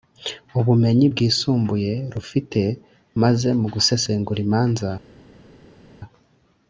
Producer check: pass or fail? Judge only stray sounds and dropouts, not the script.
pass